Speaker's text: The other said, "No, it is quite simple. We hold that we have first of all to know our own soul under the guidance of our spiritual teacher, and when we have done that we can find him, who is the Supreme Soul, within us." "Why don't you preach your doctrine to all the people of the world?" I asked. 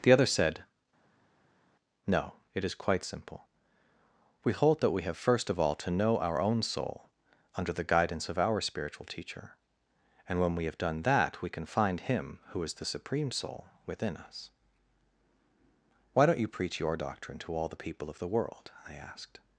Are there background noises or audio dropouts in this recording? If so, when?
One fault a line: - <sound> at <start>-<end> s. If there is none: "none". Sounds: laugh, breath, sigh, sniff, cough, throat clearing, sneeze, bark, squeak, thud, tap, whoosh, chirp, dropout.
none